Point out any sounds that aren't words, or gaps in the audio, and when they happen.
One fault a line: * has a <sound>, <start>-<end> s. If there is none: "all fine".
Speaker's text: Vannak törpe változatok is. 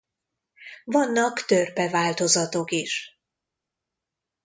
all fine